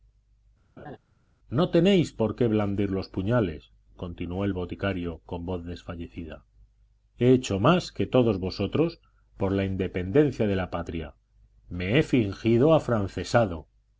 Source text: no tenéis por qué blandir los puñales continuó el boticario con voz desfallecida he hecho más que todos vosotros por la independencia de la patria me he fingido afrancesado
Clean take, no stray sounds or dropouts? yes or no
no